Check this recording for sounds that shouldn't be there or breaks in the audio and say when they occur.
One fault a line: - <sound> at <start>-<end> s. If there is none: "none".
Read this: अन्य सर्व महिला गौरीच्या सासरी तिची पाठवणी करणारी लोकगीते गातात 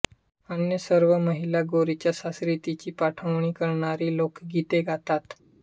none